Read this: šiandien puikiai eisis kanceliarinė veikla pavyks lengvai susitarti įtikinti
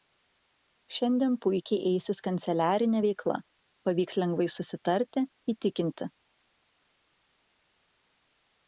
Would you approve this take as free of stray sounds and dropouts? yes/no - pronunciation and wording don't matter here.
yes